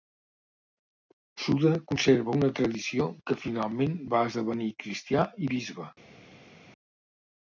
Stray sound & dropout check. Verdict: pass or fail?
pass